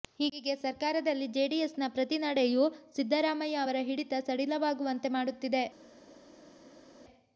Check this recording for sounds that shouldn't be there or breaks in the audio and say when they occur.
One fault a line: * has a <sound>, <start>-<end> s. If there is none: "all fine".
all fine